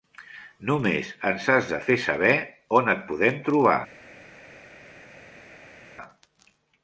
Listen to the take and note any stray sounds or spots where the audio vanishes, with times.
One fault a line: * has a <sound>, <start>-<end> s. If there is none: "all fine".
all fine